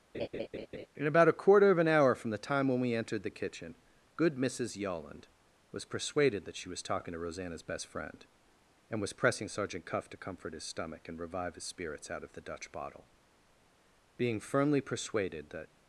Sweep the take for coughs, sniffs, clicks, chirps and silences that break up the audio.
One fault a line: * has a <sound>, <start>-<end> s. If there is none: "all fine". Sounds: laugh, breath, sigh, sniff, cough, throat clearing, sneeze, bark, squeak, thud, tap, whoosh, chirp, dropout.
* has a laugh, 0.1-0.9 s